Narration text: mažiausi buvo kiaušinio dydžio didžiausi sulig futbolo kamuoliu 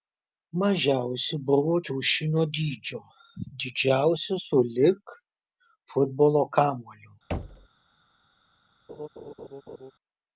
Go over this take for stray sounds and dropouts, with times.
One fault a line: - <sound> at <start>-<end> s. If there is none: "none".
- thud at 7.3-7.7 s
- laugh at 8.9-9.9 s